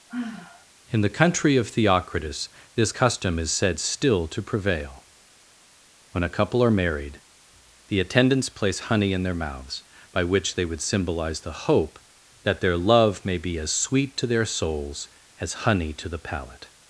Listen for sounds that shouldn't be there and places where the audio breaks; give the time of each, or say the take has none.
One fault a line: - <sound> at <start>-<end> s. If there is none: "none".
- sigh at 0.1-0.7 s